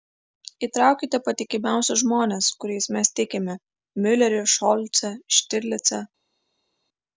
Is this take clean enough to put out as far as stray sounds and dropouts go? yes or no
yes